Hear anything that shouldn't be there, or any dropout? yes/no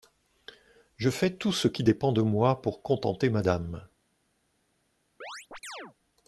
yes